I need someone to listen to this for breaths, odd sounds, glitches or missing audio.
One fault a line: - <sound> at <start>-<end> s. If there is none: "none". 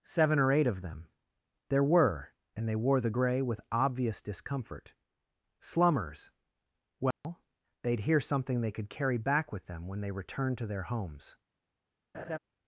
- dropout at 7.1-7.2 s
- laugh at 12.1-12.4 s